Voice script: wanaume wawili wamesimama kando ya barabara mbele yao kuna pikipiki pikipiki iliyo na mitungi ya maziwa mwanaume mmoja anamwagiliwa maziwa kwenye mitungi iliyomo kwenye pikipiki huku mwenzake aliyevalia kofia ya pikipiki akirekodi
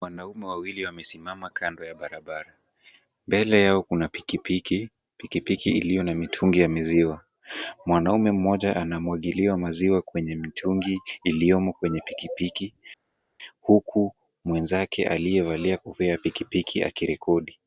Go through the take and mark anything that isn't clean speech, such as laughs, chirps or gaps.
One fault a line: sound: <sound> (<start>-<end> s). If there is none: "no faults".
no faults